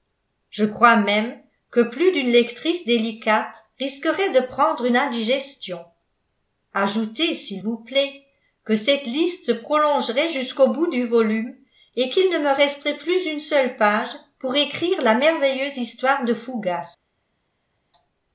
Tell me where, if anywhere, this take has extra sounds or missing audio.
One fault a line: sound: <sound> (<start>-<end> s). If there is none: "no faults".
no faults